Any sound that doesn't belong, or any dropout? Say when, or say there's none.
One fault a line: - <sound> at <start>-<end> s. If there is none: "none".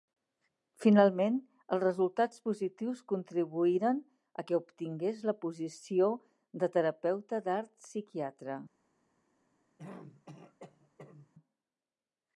- throat clearing at 9.8-11.3 s